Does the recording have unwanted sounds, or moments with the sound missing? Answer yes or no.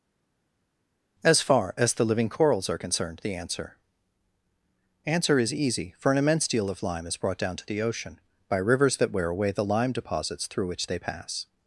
no